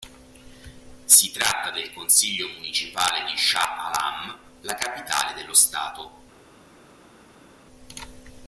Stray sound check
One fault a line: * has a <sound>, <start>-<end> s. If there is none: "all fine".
all fine